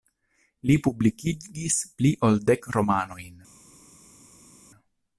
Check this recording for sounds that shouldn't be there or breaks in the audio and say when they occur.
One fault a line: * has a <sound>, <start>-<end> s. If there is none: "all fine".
all fine